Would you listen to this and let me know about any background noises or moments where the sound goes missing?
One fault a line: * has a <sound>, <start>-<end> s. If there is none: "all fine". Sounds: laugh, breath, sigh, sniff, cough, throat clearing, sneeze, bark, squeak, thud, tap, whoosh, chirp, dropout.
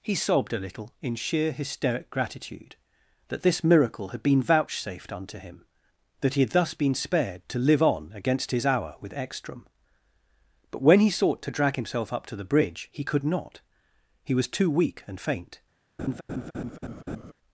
* has a laugh, 16.0-17.3 s